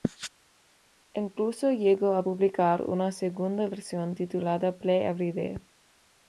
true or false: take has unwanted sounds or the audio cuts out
false